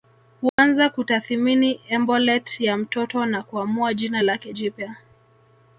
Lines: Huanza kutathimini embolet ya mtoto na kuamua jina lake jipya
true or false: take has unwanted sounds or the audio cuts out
true